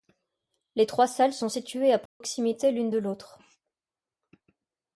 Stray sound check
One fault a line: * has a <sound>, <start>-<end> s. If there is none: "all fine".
* has a dropout, 2.1-2.2 s